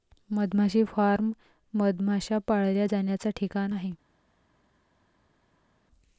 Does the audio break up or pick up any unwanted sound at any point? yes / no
no